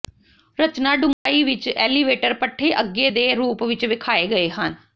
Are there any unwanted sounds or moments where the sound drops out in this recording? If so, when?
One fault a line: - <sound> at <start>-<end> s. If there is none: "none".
- dropout at 1.1-1.3 s